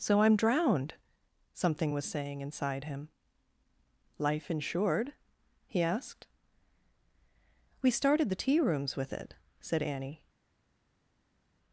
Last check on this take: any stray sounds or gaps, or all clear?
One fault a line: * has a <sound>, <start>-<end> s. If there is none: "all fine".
all fine